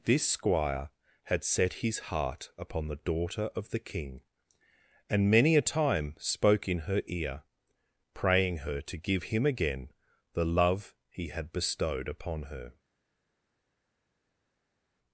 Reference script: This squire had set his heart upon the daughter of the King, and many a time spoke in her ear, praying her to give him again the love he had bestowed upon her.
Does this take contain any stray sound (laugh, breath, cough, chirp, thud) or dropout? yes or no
no